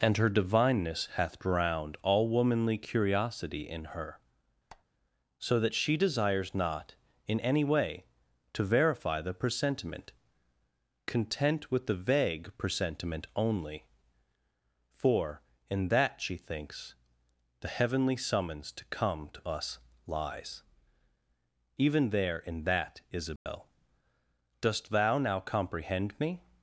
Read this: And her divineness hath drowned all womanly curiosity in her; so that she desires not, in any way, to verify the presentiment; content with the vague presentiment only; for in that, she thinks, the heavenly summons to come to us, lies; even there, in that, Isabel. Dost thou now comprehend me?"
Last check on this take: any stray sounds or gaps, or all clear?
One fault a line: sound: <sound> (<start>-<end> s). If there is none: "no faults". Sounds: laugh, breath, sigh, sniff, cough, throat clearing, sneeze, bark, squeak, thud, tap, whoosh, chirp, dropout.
sound: squeak (4.7-4.8 s)
sound: dropout (23.4-23.5 s)